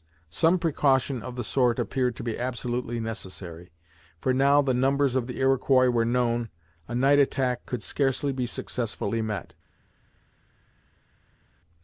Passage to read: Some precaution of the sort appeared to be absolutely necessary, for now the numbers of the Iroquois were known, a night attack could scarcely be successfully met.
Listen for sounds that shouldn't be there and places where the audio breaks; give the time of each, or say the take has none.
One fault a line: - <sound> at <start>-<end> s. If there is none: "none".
none